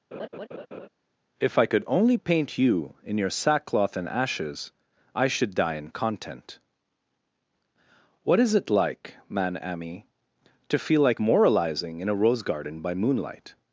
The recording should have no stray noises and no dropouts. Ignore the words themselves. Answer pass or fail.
fail